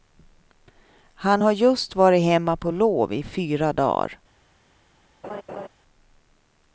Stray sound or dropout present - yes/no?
yes